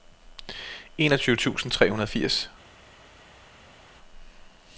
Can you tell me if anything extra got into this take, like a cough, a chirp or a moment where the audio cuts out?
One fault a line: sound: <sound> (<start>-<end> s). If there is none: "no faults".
no faults